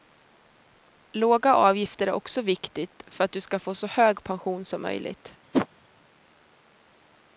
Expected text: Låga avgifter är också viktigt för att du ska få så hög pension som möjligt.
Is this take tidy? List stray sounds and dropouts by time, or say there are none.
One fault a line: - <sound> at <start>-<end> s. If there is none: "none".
- whoosh at 5.5-5.7 s